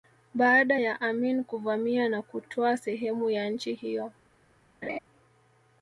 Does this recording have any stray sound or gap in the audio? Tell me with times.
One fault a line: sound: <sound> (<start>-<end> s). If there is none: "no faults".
sound: laugh (4.8-5.0 s)